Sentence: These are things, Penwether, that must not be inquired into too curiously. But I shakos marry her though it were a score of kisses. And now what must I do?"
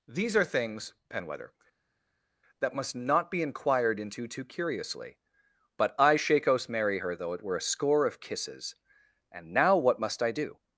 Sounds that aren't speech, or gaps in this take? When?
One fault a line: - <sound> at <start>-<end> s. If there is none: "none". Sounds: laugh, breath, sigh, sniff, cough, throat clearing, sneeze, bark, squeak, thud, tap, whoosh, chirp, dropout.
none